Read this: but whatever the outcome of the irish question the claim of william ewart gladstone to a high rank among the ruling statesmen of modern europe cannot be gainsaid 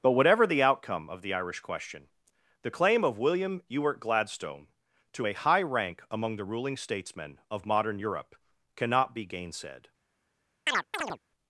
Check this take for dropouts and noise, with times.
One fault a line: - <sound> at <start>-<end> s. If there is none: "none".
- chirp at 10.7-11.2 s